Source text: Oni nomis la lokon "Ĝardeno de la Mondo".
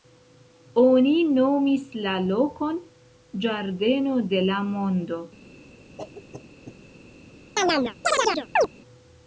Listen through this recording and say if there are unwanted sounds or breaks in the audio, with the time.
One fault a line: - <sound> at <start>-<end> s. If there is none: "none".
- cough at 6.0-6.8 s
- chirp at 7.6-8.7 s